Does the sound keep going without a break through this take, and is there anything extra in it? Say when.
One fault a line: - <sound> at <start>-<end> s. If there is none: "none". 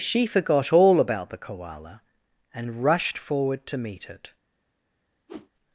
- whoosh at 5.3-5.5 s